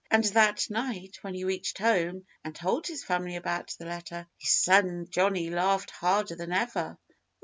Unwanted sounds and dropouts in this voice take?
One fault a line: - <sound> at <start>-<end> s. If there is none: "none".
none